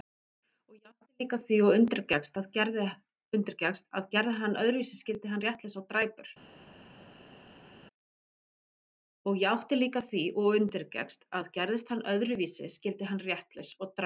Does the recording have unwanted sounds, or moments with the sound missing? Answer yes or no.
no